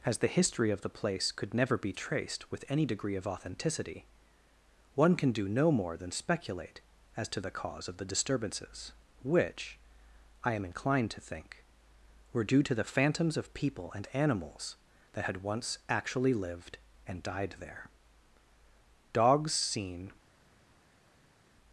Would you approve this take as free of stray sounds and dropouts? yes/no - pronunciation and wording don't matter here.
yes